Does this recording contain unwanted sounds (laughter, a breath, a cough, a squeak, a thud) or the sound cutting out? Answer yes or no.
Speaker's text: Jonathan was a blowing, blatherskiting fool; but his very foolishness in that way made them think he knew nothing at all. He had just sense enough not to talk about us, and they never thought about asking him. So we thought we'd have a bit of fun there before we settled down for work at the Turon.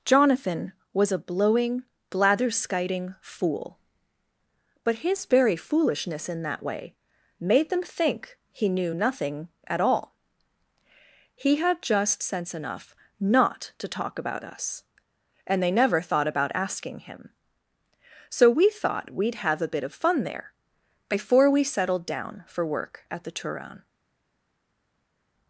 no